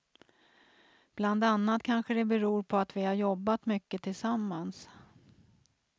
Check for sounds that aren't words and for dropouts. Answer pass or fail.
pass